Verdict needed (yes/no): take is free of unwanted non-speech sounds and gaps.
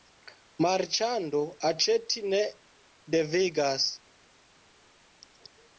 yes